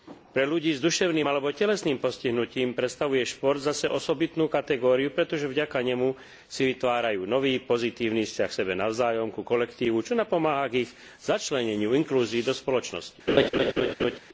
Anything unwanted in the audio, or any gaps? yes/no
yes